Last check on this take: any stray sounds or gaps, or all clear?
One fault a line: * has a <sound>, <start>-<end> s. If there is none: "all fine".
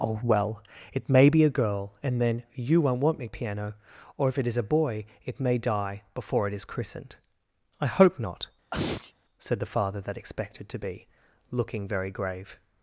* has a sneeze, 8.7-9.1 s